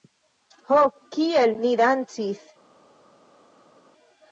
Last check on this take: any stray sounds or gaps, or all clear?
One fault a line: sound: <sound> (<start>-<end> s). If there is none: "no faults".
no faults